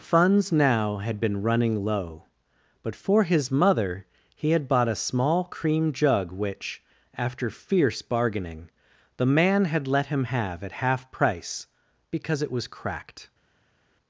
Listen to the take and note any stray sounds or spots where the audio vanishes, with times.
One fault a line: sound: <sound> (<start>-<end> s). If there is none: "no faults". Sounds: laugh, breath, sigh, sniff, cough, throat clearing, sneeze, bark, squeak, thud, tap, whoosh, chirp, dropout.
no faults